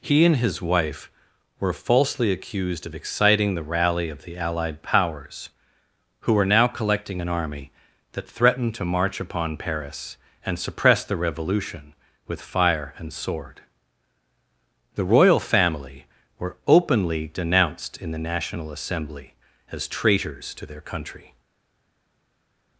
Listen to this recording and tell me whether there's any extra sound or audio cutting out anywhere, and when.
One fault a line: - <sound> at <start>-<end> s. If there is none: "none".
none